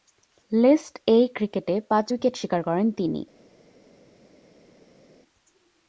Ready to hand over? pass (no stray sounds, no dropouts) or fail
pass